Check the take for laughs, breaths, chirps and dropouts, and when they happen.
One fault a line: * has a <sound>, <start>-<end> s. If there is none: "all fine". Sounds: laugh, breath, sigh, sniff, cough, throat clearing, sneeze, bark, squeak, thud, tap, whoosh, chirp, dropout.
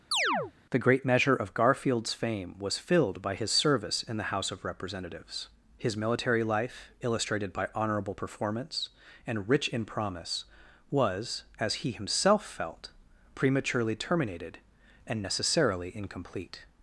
* has a chirp, 0.1-0.5 s